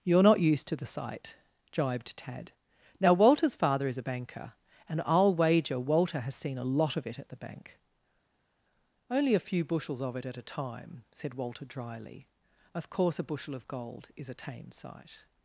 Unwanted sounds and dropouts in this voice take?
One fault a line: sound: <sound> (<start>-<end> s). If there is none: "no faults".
no faults